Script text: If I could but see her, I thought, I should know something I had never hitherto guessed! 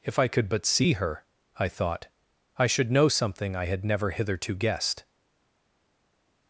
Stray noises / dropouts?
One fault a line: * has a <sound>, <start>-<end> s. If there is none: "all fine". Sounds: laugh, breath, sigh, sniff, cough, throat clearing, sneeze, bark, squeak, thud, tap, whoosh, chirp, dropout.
all fine